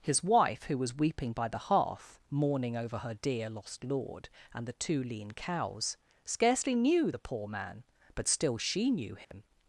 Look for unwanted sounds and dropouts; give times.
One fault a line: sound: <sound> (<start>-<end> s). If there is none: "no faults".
sound: dropout (9.2-9.3 s)